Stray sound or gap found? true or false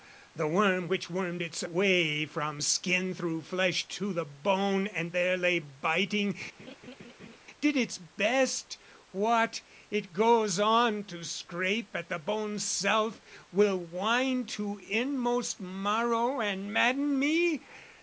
true